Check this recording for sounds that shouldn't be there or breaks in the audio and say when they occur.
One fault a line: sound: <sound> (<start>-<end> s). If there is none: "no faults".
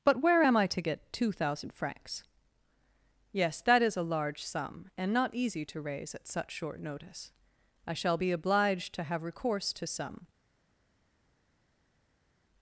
no faults